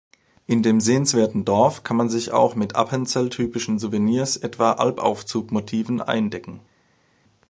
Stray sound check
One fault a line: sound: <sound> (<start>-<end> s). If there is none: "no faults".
no faults